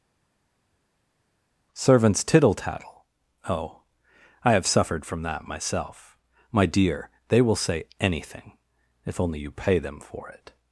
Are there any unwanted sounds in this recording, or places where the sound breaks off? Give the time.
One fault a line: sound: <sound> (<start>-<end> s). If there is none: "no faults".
no faults